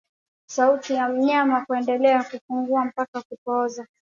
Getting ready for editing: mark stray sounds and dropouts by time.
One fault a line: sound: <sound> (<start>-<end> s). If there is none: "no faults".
no faults